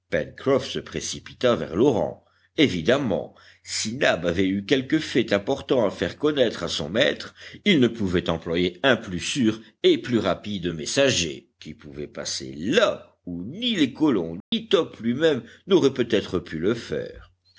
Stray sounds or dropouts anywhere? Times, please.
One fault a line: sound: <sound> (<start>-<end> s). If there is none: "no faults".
sound: dropout (14.4-14.5 s)